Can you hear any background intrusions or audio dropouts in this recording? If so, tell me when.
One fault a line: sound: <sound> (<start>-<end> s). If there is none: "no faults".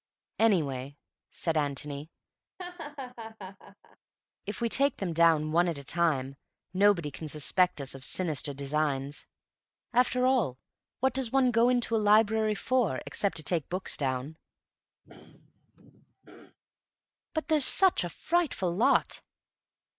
sound: laugh (2.6-4.0 s)
sound: throat clearing (15.0-16.6 s)